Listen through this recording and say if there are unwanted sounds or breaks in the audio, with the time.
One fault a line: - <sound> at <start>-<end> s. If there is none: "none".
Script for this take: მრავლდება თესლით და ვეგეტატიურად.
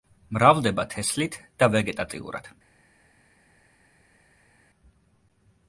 none